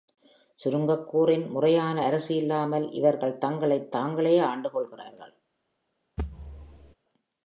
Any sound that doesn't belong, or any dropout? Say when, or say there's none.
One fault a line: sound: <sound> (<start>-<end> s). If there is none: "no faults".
sound: thud (6.2-6.9 s)